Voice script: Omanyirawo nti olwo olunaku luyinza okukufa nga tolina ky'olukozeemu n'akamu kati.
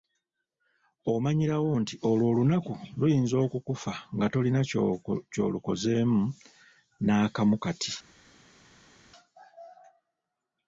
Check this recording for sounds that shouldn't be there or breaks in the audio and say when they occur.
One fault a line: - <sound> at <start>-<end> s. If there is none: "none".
none